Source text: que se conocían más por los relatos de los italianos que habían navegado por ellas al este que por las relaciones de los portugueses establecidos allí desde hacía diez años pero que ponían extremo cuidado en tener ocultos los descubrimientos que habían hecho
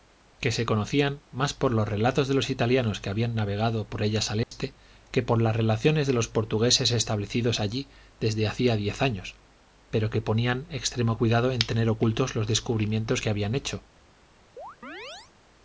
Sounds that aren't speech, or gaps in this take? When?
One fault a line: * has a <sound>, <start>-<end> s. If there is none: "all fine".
* has a dropout, 4.4-4.5 s
* has a chirp, 14.6-15.3 s